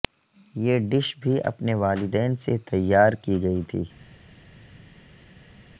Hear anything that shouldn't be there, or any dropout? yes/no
no